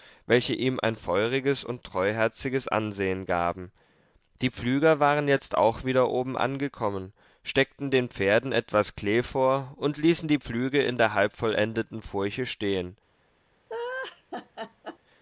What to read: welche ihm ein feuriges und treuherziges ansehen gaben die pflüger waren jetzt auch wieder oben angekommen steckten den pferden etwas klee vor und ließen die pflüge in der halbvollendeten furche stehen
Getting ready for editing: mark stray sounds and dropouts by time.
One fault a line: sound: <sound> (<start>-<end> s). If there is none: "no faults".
sound: laugh (13.7-15.0 s)